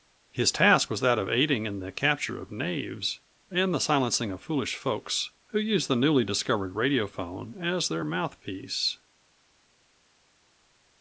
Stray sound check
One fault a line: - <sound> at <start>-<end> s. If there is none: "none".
none